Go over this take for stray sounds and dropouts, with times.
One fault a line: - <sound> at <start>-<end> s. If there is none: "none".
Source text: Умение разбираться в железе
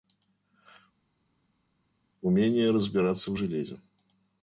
none